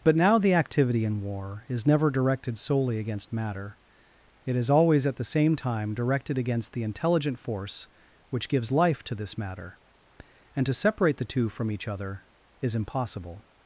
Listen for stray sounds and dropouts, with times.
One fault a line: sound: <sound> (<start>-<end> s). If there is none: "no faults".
no faults